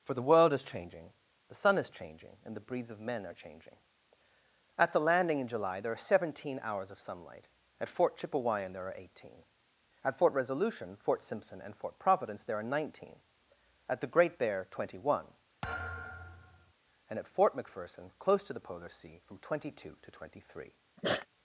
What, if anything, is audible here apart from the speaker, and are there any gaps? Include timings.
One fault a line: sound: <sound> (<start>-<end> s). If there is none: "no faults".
sound: thud (15.6-16.7 s)
sound: sneeze (21.0-21.3 s)